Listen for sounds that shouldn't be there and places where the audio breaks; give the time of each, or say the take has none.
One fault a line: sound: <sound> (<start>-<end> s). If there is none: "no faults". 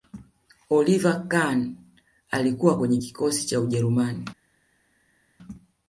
no faults